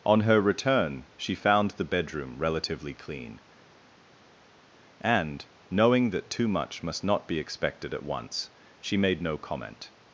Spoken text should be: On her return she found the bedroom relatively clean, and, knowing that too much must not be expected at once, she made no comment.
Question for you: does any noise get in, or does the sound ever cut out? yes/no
no